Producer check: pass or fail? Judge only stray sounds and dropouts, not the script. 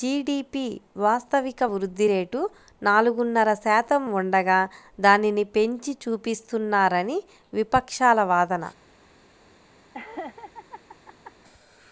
fail